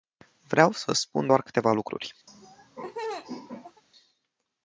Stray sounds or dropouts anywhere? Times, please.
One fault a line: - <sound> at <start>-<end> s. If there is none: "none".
- laugh at 2.3-3.8 s